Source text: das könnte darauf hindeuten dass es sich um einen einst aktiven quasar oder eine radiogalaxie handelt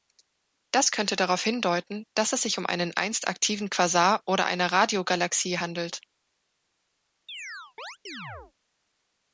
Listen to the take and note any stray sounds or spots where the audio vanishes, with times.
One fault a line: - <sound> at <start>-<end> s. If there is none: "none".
- chirp at 7.3-8.5 s